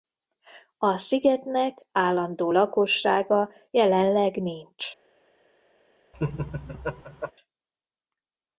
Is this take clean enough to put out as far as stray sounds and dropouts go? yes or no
no